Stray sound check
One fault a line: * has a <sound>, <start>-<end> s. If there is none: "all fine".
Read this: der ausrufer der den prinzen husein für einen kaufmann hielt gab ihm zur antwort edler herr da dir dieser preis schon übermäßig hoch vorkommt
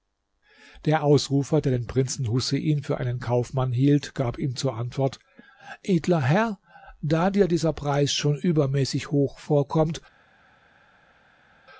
all fine